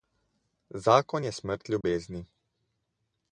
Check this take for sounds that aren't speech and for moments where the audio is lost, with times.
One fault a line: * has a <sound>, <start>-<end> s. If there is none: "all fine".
* has a dropout, 1.8-1.8 s